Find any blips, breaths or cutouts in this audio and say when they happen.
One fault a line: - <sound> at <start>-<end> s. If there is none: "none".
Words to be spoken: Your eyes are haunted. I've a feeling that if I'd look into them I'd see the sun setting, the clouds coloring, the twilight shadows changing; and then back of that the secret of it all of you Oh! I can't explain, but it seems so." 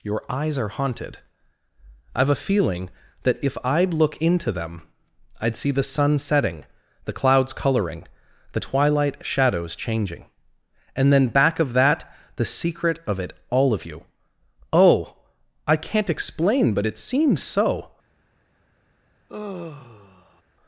- sigh at 19.3-20.4 s